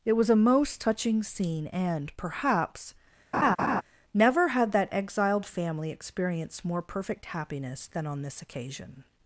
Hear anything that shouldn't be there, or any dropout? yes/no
yes